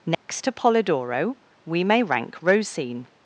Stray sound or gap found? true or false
true